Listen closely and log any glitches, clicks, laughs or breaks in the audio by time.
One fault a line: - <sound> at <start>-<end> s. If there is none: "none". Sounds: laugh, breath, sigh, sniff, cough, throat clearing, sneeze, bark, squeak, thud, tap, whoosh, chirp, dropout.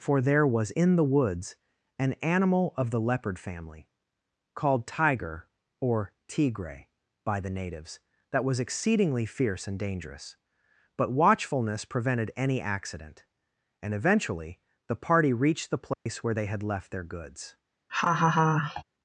- dropout at 15.9-16.1 s
- laugh at 17.9-18.8 s